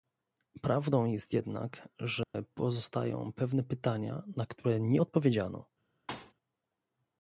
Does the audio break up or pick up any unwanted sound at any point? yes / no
yes